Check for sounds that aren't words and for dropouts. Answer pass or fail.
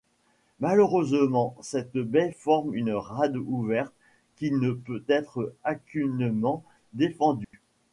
fail